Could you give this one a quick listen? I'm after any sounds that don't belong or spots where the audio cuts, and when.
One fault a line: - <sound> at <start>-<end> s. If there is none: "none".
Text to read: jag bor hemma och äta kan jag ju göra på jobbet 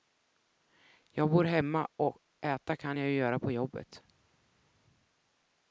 none